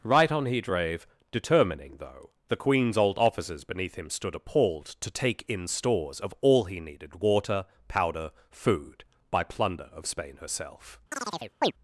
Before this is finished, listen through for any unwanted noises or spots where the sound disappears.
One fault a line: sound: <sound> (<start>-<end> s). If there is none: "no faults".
sound: chirp (11.1-11.7 s)